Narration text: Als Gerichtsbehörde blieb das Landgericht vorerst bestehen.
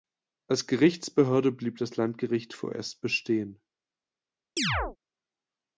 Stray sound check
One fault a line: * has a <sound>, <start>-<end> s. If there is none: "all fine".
* has a chirp, 4.6-5.0 s